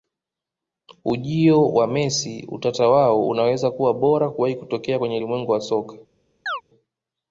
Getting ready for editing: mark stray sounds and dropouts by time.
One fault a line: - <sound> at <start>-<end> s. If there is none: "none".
- chirp at 6.5-6.6 s